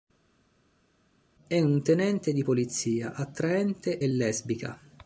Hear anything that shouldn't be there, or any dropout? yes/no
no